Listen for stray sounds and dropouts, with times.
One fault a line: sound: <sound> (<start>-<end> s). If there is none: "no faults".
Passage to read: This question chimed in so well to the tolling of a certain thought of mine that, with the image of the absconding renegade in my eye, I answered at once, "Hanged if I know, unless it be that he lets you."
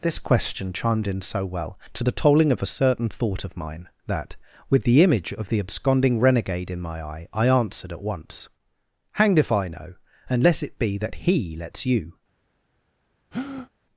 sound: breath (13.3-13.7 s)